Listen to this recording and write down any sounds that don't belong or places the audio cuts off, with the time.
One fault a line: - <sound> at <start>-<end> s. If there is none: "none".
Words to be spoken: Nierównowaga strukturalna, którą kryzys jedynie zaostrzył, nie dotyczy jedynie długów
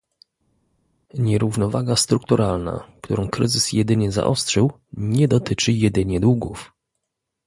none